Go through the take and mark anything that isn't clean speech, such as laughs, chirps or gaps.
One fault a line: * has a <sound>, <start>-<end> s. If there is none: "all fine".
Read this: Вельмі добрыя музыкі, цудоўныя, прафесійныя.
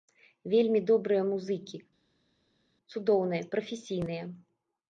all fine